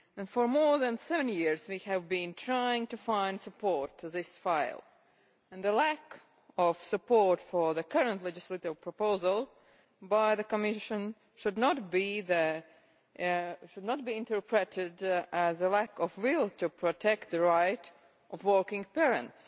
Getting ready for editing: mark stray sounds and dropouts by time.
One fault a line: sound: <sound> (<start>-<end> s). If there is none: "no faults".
no faults